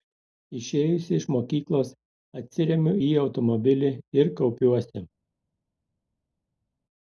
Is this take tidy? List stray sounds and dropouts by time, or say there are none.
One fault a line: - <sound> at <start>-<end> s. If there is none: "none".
none